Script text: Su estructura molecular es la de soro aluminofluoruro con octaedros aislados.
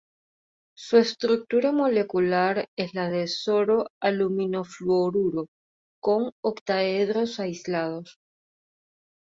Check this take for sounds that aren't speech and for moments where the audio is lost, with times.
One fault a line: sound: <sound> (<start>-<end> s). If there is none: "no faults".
no faults